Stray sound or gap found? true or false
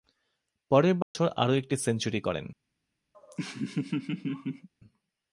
true